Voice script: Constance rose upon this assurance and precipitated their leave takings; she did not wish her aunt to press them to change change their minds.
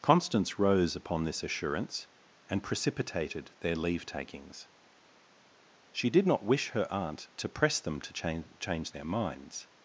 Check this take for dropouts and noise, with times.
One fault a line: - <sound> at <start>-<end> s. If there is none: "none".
none